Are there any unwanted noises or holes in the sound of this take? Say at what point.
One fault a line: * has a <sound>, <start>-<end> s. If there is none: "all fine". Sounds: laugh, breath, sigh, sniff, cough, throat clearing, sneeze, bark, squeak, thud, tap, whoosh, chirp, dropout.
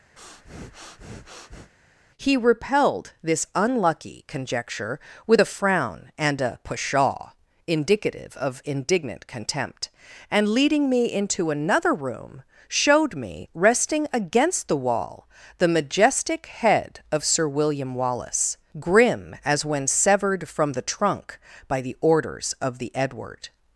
* has a breath, 0.2-1.7 s